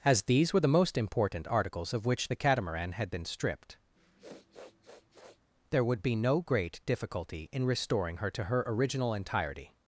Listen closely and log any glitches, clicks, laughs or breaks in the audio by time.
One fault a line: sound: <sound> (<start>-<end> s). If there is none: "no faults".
sound: sniff (4.0-5.4 s)